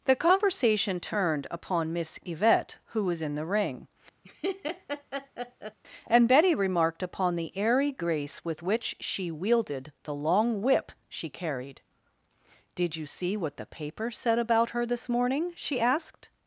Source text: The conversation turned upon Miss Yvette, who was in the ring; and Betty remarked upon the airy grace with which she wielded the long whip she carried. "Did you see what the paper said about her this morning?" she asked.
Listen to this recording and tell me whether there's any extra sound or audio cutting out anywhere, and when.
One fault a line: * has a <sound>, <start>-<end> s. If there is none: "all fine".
* has a laugh, 4.2-5.8 s